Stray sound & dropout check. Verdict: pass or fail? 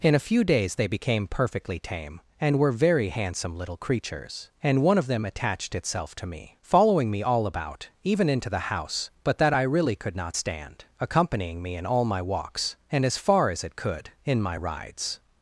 pass